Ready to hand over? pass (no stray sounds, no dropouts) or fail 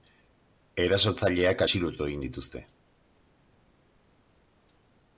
pass